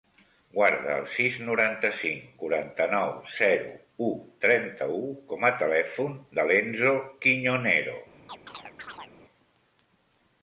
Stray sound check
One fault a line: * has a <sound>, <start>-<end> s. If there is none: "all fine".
* has a chirp, 8.3-9.1 s